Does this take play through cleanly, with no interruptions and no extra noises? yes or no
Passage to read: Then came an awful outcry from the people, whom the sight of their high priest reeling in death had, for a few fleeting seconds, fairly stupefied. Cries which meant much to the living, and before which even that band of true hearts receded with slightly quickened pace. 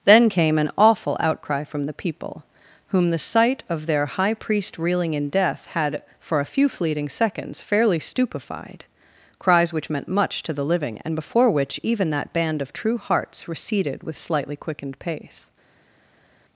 yes